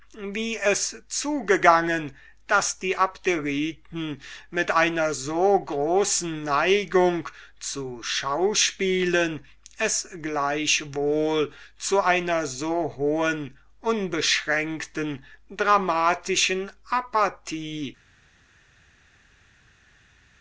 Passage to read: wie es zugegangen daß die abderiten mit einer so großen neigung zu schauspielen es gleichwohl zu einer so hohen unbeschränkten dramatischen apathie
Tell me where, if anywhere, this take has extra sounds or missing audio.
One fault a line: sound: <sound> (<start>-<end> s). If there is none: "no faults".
no faults